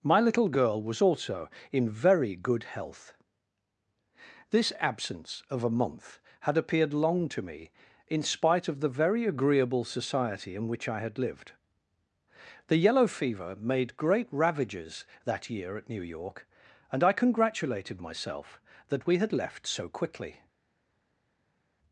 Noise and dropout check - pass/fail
pass